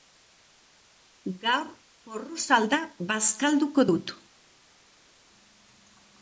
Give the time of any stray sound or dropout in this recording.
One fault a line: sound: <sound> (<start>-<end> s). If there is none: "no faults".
no faults